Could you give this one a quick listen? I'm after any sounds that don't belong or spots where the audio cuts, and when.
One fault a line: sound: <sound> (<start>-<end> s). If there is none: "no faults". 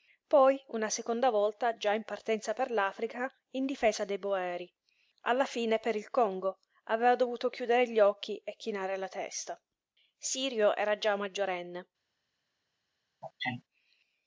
sound: sneeze (13.2-13.6 s)